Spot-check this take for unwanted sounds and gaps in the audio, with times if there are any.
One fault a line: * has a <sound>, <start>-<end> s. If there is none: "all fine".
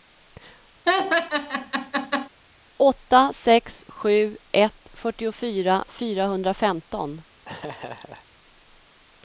* has a laugh, 0.9-2.3 s
* has a laugh, 7.4-8.3 s